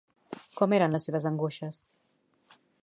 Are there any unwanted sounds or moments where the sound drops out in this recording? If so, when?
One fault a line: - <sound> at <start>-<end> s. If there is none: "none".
none